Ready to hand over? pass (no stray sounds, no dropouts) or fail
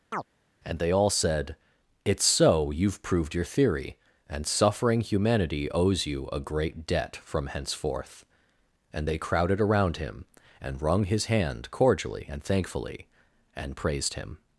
fail